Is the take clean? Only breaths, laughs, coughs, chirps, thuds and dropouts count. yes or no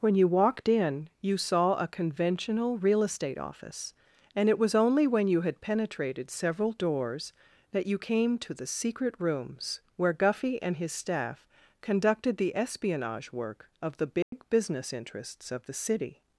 no